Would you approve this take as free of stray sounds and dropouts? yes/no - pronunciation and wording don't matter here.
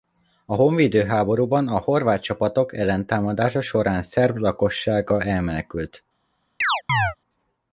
no